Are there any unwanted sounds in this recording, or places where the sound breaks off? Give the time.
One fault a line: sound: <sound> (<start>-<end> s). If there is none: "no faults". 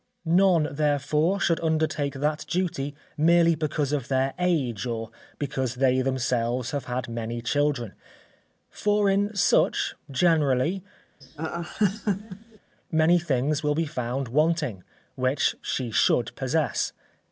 sound: laugh (11.2-12.6 s)